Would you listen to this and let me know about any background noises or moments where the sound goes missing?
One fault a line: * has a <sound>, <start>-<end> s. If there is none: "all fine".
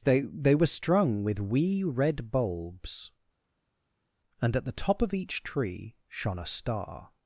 all fine